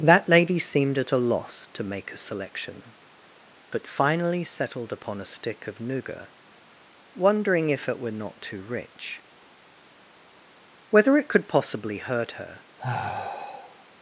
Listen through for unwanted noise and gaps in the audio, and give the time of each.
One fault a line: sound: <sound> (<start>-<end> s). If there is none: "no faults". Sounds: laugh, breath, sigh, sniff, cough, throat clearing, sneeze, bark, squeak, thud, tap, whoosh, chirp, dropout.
sound: sigh (12.8-13.8 s)